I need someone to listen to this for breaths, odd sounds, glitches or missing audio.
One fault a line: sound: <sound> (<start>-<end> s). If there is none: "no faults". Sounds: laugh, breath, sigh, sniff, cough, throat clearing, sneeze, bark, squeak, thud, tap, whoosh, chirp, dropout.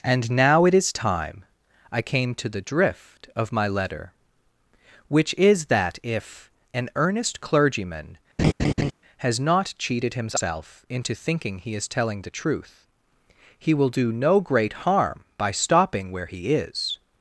sound: laugh (8.4-8.9 s)